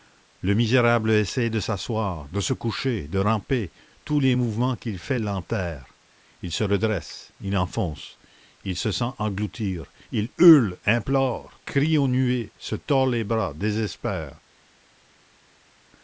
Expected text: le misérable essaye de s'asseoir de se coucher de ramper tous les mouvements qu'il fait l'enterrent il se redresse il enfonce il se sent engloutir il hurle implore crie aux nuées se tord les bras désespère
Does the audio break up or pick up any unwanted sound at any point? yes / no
no